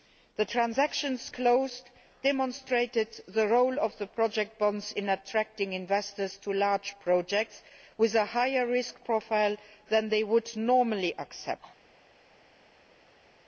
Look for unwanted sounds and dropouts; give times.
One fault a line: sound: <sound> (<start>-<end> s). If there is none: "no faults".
no faults